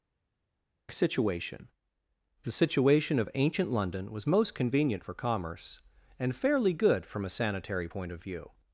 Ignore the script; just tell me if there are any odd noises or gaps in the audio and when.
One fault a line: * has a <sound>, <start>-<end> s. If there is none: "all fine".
all fine